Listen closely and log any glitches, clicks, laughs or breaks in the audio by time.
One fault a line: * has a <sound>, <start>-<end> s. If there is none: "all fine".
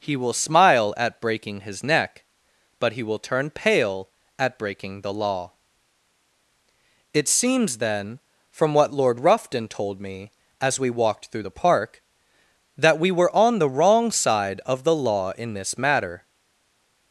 all fine